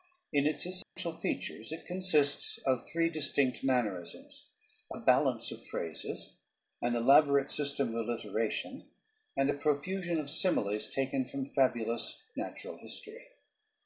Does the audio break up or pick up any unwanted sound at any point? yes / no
yes